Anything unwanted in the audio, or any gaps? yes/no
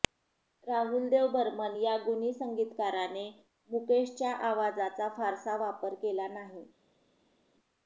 no